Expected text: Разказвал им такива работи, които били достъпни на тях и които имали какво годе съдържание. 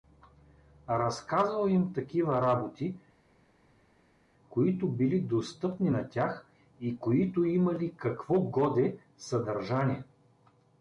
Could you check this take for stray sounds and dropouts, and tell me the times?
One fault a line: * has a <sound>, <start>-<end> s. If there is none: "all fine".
all fine